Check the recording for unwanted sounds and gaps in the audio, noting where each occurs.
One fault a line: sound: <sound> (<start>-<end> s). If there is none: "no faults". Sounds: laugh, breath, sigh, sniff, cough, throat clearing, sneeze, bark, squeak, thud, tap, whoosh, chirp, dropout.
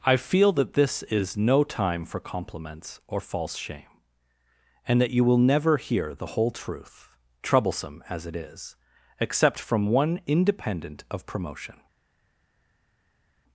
no faults